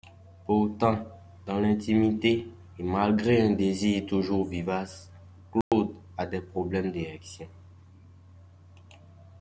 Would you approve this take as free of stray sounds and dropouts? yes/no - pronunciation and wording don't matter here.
no